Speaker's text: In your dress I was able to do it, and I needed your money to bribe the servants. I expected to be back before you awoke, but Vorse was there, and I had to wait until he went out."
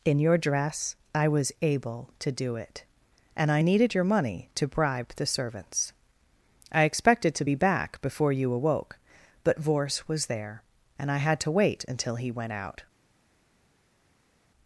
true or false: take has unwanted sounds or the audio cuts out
false